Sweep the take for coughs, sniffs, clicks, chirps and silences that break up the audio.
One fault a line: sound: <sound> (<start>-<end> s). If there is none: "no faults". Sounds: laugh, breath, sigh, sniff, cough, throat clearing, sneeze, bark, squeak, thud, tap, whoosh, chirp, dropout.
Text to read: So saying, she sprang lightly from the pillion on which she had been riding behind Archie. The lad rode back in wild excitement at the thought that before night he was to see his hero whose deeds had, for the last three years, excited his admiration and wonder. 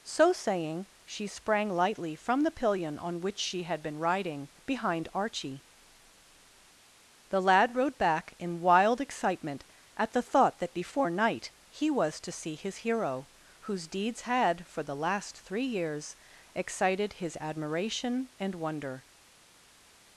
no faults